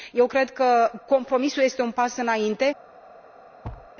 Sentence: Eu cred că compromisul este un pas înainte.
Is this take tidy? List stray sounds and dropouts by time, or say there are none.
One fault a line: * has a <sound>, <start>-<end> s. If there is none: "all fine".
* has a thud, 3.6-3.9 s